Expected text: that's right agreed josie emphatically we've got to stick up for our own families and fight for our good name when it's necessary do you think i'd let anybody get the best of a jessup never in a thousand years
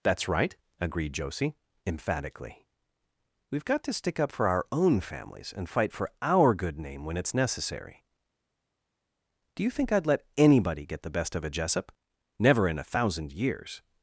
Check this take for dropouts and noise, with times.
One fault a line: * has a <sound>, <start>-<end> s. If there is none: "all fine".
all fine